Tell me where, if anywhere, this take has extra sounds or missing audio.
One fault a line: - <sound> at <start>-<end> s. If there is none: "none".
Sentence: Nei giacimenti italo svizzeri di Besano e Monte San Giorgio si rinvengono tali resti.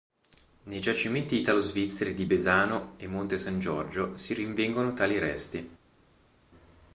none